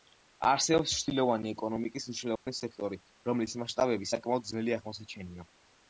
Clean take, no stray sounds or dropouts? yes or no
no